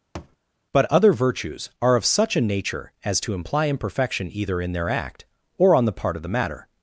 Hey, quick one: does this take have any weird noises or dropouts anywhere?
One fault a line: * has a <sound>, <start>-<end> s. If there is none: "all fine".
* has a thud, 0.2-0.4 s